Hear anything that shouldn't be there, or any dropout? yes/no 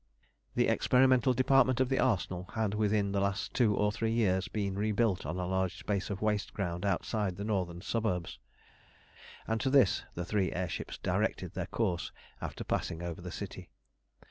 no